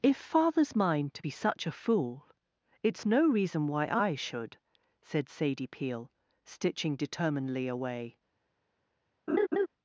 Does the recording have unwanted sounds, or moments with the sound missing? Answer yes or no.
yes